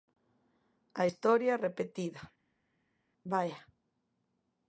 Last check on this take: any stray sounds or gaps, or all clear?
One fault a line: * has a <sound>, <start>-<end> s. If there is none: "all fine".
all fine